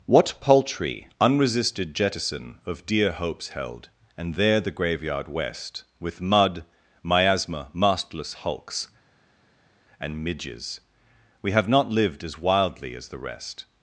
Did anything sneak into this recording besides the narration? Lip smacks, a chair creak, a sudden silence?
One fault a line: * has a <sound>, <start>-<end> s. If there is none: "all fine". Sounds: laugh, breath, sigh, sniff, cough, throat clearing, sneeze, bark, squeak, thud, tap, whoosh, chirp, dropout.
all fine